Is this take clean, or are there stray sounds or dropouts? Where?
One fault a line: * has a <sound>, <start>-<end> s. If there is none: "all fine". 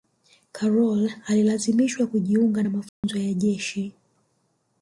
* has a dropout, 2.9-3.0 s